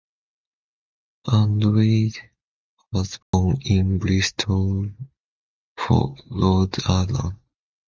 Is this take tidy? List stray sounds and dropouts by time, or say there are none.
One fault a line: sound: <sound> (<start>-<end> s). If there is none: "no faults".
sound: dropout (3.2-3.3 s)